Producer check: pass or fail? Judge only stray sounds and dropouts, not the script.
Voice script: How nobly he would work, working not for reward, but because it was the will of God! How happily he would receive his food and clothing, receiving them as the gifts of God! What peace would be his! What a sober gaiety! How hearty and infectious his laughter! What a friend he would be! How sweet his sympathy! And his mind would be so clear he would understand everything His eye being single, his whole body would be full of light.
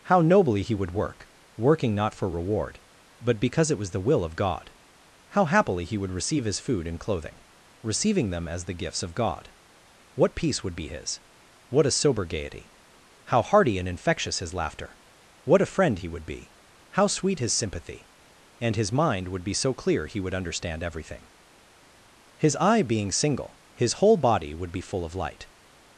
pass